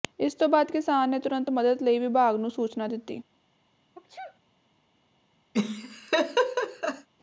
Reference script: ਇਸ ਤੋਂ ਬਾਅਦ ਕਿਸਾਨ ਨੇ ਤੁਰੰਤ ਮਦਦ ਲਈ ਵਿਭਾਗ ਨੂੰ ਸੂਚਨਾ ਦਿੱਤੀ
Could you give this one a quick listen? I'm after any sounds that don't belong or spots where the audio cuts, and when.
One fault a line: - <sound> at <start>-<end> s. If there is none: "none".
- sneeze at 3.9-4.4 s
- laugh at 5.5-7.1 s